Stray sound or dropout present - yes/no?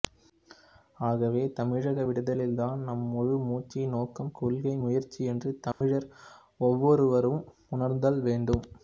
yes